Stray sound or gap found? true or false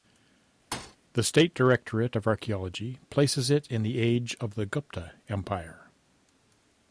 true